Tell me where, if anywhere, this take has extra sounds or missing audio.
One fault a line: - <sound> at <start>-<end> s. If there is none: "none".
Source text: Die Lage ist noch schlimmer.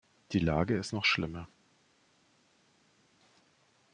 none